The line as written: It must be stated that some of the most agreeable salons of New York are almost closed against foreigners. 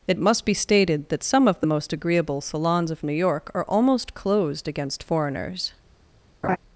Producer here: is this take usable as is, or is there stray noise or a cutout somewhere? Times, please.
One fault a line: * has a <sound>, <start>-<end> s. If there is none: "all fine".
* has a laugh, 6.4-6.6 s